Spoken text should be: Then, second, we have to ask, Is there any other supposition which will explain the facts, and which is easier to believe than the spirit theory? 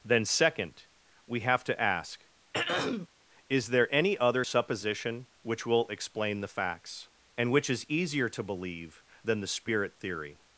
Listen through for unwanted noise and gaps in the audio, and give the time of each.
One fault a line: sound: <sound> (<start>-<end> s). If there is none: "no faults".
sound: throat clearing (2.5-3.1 s)